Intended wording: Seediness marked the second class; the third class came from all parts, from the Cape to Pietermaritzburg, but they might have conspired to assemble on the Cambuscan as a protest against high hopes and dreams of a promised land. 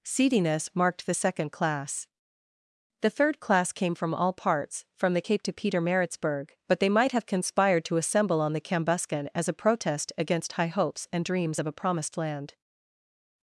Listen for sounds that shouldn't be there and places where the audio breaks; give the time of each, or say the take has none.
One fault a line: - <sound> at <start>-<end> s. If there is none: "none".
none